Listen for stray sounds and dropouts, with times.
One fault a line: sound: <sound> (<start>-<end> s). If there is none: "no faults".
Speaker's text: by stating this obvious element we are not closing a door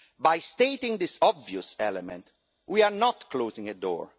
no faults